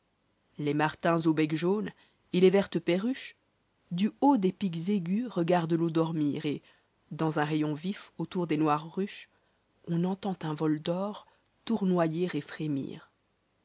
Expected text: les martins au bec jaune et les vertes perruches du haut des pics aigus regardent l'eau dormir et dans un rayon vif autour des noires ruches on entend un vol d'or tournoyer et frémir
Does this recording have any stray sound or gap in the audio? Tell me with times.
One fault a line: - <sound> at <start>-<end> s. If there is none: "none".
none